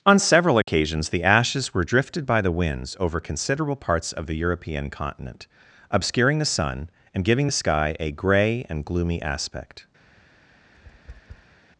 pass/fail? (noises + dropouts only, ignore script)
fail